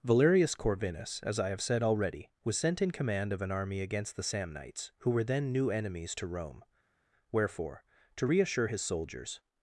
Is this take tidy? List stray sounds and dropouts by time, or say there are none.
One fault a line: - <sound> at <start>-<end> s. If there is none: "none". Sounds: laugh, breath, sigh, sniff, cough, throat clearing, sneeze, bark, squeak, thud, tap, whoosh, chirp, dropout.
none